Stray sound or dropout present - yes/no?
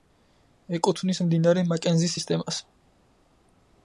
no